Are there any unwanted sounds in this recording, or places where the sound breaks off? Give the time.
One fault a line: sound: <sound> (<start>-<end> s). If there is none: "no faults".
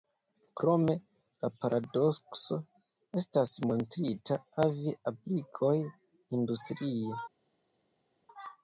no faults